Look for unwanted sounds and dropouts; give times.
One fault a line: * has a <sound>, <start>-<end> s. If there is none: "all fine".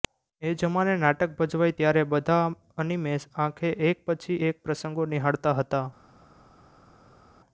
all fine